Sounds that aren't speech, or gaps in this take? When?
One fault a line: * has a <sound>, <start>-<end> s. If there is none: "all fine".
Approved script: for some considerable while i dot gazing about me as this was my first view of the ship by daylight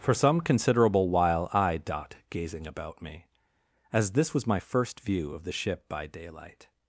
all fine